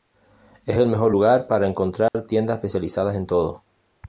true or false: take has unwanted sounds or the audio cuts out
true